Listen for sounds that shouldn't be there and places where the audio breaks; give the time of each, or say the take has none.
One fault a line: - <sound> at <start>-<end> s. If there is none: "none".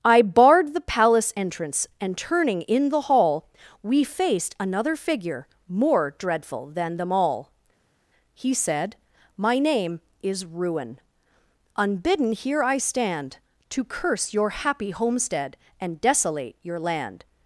none